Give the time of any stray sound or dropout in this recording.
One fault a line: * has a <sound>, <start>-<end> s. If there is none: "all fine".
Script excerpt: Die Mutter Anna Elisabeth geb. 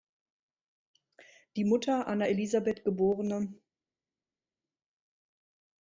all fine